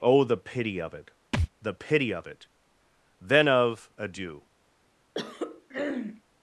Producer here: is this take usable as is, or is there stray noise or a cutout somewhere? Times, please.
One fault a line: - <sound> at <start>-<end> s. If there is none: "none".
- thud at 1.3-1.5 s
- throat clearing at 5.1-6.2 s